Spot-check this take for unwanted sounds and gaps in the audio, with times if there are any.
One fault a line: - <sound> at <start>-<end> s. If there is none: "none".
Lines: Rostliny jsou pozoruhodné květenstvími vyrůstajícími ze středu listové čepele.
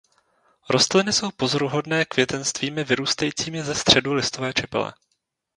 none